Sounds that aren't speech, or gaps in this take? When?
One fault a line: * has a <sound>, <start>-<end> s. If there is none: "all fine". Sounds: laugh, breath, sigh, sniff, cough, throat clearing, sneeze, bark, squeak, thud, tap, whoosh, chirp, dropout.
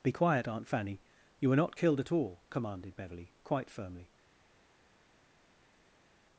all fine